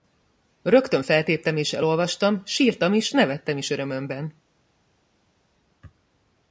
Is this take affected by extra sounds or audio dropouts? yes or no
no